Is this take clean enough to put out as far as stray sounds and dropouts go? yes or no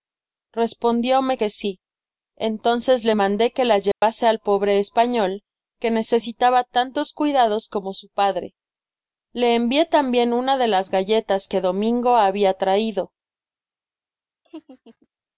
no